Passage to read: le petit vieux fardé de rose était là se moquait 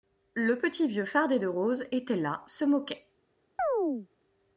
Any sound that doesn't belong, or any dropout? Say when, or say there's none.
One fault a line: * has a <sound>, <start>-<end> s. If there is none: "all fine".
* has a chirp, 3.6-4.1 s